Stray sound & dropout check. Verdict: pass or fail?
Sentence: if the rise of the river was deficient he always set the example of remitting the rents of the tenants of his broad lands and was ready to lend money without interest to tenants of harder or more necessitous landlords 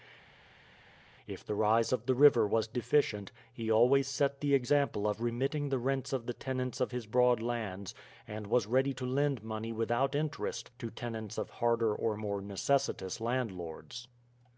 pass